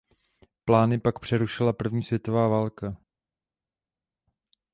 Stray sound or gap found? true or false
false